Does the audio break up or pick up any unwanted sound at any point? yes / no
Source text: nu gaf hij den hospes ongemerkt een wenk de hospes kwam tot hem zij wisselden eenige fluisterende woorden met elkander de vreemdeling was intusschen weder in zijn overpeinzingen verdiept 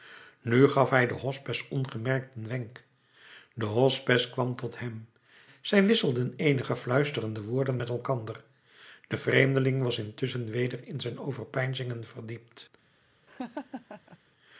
yes